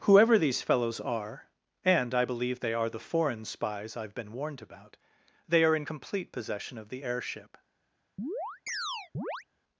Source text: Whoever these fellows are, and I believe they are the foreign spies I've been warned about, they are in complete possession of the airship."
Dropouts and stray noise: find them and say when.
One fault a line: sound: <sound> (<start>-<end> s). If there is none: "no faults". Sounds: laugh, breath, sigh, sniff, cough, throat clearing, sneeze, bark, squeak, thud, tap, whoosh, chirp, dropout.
sound: chirp (8.2-9.4 s)